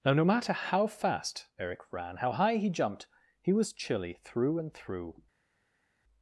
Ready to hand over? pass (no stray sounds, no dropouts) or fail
pass